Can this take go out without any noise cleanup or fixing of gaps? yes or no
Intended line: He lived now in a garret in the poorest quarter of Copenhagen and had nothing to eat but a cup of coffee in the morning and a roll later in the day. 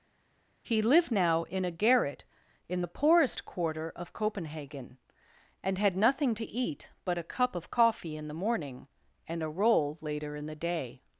yes